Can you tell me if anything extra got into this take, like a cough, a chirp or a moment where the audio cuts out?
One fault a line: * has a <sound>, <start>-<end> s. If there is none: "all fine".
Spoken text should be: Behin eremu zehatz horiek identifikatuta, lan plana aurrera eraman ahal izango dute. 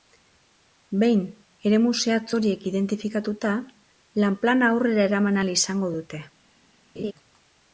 * has a laugh, 7.0-7.1 s